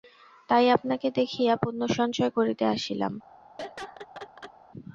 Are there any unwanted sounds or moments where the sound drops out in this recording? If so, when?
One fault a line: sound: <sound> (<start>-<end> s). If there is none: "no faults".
sound: laugh (3.6-4.5 s)